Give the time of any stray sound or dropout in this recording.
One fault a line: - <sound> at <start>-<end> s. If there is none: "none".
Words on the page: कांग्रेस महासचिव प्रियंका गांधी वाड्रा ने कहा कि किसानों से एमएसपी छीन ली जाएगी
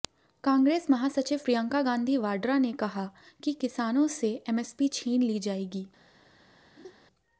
- laugh at 6.8-6.9 s